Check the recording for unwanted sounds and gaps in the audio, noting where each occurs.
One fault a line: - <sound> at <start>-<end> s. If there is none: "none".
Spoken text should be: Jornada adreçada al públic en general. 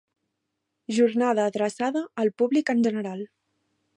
none